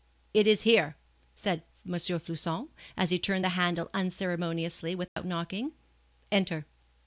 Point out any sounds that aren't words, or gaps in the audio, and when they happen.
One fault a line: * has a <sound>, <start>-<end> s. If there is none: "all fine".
* has a dropout, 5.1-5.2 s